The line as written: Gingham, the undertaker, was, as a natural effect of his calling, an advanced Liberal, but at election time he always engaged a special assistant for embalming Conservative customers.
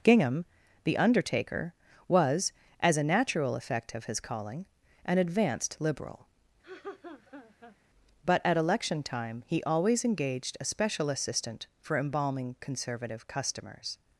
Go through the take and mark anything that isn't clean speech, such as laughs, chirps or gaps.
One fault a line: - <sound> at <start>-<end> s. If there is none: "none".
- laugh at 6.6-7.8 s